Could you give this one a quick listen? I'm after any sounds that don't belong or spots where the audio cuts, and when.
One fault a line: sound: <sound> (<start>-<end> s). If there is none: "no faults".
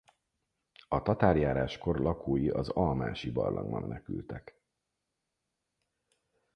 no faults